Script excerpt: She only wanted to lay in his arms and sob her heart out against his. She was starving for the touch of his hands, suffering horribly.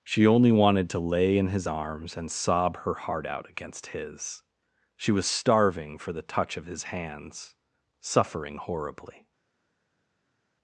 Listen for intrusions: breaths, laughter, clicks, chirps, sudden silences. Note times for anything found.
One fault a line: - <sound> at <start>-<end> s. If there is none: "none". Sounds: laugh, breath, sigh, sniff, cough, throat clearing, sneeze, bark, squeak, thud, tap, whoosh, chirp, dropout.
none